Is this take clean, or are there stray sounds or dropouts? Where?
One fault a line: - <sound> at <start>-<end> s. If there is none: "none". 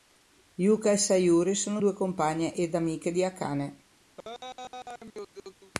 - laugh at 4.2-5.7 s